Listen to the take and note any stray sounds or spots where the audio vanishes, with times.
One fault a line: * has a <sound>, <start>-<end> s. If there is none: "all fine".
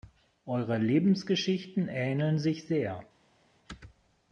all fine